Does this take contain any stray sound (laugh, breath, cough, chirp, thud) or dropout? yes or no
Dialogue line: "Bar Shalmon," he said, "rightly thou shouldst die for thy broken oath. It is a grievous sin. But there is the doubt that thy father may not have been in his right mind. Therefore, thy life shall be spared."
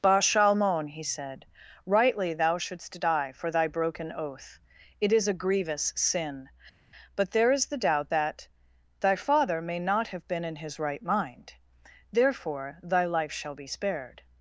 no